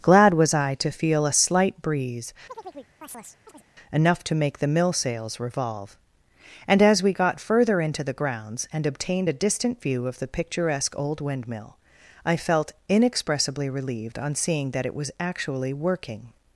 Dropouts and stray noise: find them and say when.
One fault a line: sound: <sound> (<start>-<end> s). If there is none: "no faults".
sound: chirp (2.5-3.7 s)